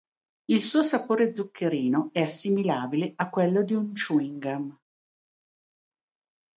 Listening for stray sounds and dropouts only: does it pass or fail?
pass